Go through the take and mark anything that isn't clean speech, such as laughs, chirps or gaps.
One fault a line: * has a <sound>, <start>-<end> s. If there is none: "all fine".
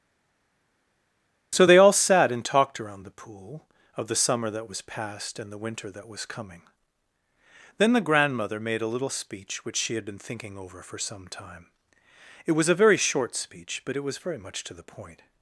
all fine